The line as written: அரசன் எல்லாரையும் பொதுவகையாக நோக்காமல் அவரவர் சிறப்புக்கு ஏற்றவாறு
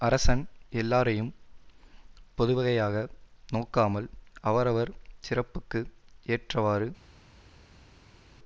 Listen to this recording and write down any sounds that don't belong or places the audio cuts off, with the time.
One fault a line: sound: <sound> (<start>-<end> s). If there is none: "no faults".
no faults